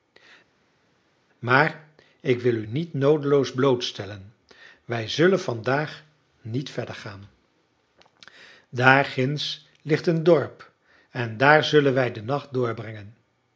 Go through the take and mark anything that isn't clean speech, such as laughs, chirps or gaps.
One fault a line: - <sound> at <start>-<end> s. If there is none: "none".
none